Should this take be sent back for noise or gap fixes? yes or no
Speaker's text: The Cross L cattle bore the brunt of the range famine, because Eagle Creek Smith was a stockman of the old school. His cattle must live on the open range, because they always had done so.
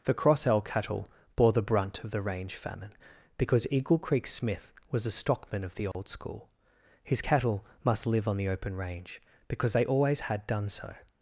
yes